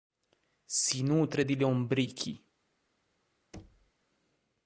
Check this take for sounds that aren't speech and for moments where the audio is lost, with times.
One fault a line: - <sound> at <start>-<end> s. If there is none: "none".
- thud at 3.5-3.9 s